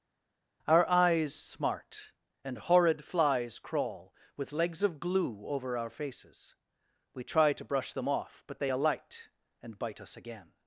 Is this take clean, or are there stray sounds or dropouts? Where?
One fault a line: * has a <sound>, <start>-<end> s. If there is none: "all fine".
all fine